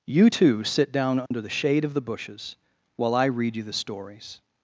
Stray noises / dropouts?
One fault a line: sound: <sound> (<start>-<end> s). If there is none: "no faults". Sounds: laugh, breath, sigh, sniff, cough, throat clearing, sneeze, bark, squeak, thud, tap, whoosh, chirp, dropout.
sound: dropout (1.3-1.3 s)